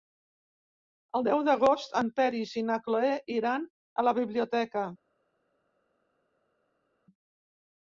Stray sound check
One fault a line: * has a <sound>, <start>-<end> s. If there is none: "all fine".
all fine